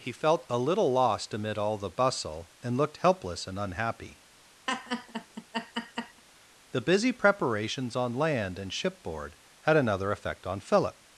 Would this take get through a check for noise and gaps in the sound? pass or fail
fail